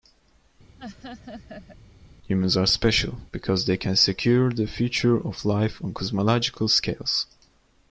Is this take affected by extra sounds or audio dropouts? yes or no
yes